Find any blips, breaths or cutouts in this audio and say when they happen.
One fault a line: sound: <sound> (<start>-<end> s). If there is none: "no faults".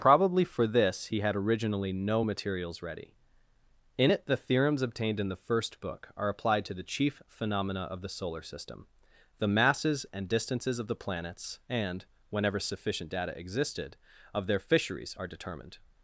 no faults